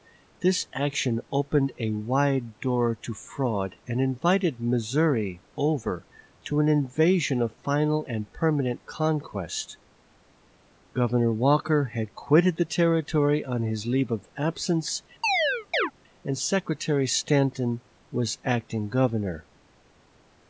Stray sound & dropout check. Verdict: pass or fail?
fail